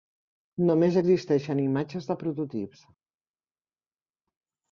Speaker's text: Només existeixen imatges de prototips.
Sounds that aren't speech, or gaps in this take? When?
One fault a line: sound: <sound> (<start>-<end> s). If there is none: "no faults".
no faults